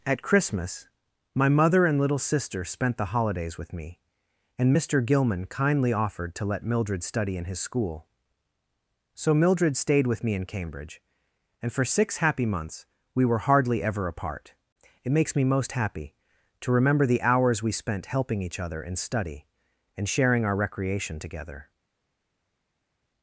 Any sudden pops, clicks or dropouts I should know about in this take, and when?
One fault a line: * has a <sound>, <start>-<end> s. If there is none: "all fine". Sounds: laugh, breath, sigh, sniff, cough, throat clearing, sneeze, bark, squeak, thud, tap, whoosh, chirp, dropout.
all fine